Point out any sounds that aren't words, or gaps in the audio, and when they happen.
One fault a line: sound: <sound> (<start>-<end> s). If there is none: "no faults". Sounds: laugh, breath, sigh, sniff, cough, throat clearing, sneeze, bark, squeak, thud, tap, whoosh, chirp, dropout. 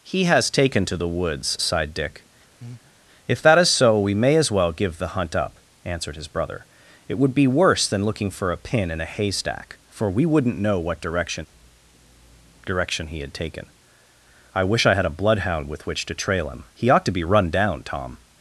sound: breath (2.6-2.9 s)